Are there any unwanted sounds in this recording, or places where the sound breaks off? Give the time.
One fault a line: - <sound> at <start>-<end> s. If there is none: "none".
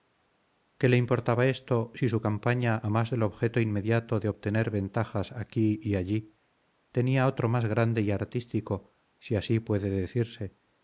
none